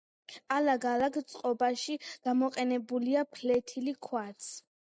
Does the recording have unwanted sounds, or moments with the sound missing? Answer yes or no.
no